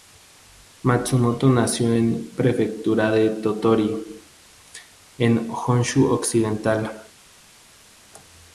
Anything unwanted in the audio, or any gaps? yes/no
no